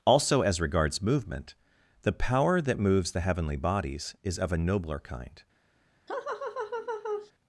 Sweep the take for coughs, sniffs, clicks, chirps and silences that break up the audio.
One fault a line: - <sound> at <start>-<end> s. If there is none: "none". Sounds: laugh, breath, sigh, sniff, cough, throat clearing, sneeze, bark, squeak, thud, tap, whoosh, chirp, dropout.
- laugh at 6.1-7.3 s